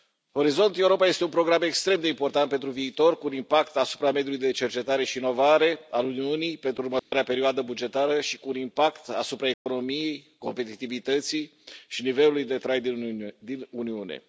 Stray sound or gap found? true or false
true